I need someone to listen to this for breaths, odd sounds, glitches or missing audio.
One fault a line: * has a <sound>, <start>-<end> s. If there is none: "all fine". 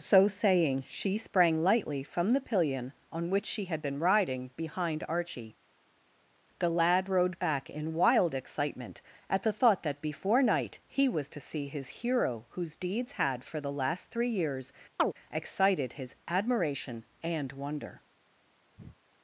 * has a chirp, 15.0-15.1 s
* has a breath, 18.8-19.0 s